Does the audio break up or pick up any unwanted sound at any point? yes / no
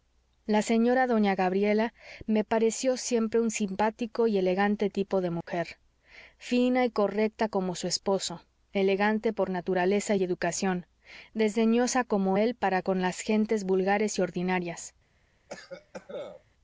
yes